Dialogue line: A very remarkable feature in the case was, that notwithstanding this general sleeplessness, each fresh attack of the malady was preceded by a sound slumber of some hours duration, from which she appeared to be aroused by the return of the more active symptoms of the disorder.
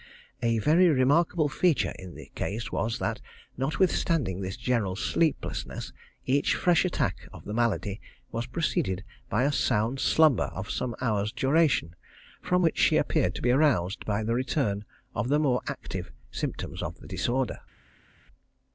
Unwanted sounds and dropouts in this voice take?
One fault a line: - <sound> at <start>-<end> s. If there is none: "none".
none